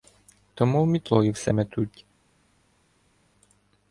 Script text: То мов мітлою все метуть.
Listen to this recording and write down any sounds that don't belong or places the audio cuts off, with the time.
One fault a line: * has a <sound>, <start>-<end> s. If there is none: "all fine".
all fine